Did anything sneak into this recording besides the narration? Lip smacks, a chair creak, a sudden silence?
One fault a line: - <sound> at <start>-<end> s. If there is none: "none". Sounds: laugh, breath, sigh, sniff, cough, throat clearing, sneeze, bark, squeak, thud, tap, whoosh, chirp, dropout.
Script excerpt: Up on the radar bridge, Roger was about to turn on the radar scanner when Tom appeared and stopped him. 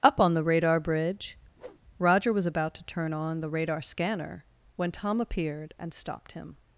- whoosh at 1.6-1.8 s